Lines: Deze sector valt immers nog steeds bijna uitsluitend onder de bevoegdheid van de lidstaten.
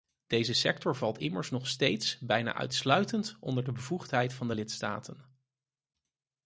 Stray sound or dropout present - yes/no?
no